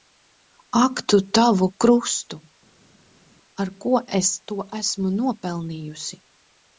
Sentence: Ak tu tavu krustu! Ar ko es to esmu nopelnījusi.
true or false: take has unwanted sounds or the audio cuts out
false